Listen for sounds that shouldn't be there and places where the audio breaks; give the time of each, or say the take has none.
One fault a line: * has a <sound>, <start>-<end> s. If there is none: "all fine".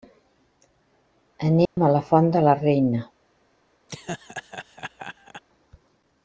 * has a dropout, 1.7-1.8 s
* has a laugh, 3.9-5.4 s